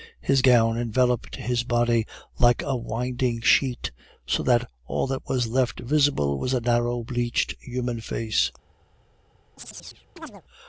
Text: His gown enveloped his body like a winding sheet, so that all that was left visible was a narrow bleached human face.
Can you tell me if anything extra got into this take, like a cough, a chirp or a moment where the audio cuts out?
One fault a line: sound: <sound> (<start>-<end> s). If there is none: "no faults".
sound: chirp (9.6-10.4 s)